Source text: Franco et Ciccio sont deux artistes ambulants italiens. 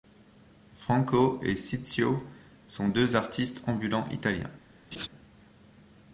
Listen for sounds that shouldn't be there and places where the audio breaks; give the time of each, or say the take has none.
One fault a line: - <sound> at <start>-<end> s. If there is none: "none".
- laugh at 4.9-5.1 s